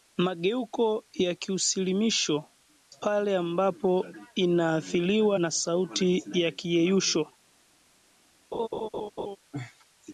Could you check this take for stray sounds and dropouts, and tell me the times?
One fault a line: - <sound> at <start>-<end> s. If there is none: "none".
- laugh at 8.5-9.4 s